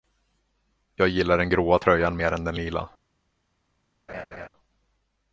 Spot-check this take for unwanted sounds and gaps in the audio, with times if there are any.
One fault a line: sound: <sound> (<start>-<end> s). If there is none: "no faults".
sound: laugh (4.1-4.5 s)